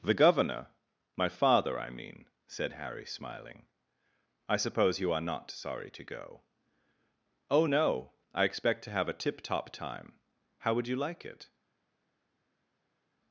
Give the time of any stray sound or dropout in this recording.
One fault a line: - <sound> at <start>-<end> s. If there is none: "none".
none